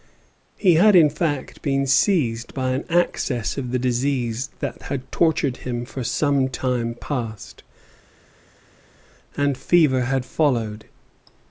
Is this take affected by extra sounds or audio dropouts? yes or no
no